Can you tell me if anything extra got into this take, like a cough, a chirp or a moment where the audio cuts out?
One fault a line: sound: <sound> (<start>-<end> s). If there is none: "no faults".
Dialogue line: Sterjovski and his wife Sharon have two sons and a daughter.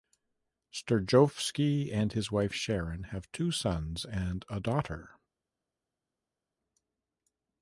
no faults